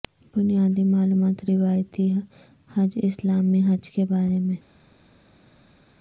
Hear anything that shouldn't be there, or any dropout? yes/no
no